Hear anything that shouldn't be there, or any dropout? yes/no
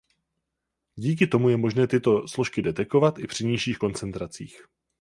no